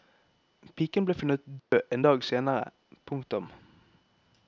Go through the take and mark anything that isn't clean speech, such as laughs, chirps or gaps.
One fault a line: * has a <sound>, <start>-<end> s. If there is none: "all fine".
* has a dropout, 1.6-1.7 s